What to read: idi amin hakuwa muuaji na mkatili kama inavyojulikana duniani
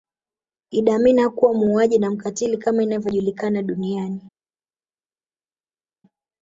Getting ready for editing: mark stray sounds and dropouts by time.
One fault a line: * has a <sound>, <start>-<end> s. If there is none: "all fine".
all fine